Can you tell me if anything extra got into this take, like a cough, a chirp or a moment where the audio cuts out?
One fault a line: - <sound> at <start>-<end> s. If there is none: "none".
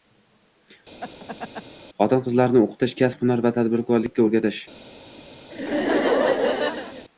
- laugh at 1.0-1.6 s
- laugh at 5.5-7.1 s